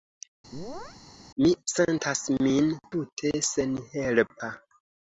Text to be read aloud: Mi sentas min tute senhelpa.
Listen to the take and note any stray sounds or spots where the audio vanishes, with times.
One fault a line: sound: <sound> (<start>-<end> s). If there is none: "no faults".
sound: chirp (0.5-1.0 s)